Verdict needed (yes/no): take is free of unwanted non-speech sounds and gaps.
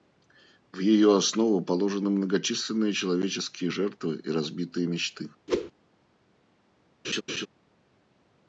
no